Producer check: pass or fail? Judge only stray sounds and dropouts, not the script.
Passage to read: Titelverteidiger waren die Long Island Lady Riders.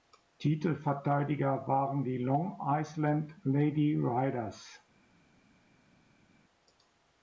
pass